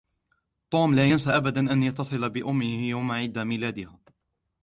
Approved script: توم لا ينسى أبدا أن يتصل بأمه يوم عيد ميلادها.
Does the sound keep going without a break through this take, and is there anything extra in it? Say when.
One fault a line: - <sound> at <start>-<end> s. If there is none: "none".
none